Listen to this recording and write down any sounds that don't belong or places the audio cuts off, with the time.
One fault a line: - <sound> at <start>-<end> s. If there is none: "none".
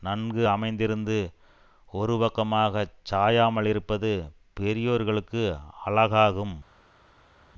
none